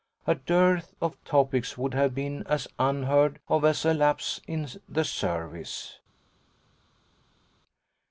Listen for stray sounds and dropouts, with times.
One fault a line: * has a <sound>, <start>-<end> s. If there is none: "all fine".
all fine